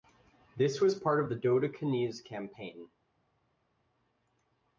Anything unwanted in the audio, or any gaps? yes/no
no